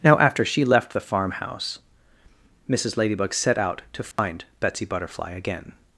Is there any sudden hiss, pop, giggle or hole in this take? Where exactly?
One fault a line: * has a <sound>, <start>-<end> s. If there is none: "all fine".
* has a dropout, 4.1-4.2 s